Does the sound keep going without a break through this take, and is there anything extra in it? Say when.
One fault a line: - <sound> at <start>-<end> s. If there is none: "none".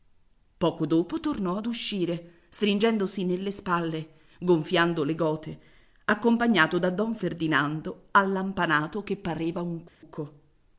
- dropout at 9.9-10.0 s